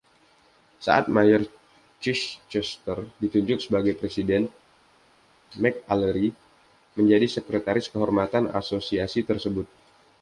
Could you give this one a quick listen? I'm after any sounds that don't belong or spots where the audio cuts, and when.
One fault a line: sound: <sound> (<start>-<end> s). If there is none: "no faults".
no faults